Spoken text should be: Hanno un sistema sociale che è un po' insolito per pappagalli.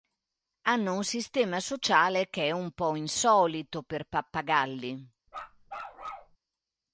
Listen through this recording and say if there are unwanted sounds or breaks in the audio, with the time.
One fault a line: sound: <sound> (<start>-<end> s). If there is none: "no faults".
sound: bark (5.3-6.4 s)